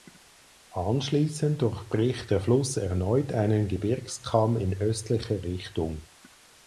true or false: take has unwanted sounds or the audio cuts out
false